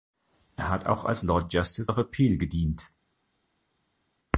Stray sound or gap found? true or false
false